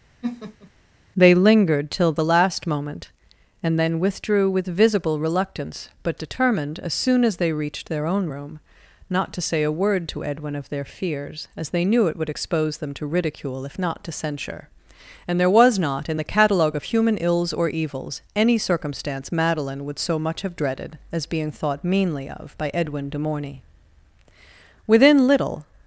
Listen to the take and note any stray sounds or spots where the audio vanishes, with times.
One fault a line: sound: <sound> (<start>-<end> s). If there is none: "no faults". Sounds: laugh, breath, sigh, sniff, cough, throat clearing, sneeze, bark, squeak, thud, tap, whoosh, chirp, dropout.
sound: laugh (0.2-0.7 s)